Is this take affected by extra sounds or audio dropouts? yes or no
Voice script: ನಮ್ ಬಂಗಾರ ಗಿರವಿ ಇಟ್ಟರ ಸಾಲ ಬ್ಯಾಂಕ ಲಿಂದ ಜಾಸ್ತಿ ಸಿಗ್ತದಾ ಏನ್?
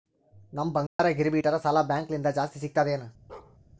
yes